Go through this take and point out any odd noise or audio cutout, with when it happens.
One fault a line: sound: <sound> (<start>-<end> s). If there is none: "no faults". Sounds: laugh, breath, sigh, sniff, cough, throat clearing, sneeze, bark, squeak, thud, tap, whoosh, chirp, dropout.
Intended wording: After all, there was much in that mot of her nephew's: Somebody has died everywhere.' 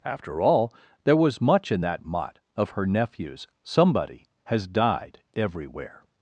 no faults